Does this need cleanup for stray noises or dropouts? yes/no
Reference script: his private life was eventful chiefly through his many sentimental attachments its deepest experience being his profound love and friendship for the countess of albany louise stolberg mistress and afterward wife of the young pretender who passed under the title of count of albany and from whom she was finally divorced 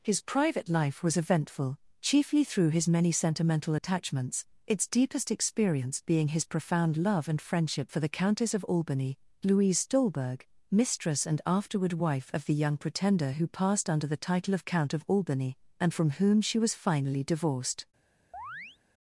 yes